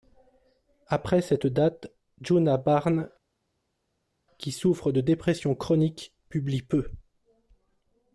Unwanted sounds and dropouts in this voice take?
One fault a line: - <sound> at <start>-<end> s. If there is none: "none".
none